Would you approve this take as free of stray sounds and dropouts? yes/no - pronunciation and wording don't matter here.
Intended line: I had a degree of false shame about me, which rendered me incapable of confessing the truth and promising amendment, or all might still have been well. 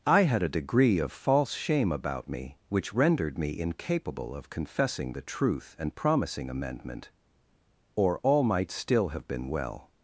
yes